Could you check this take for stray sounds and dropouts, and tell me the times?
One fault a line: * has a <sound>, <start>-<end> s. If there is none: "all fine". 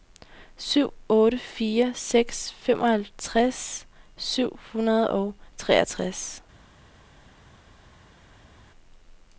all fine